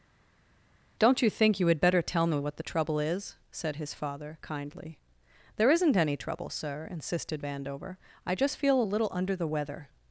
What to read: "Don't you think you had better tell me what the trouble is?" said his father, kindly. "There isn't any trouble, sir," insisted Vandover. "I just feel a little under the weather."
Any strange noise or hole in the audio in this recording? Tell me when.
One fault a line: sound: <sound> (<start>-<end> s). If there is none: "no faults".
no faults